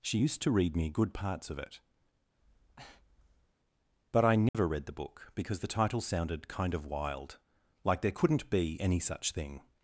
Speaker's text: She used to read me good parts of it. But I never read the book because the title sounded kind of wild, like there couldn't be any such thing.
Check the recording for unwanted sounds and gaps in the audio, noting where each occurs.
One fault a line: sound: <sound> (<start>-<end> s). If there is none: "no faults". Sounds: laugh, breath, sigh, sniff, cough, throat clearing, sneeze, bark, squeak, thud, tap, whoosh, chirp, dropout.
sound: breath (2.4-3.5 s)
sound: dropout (4.5-4.5 s)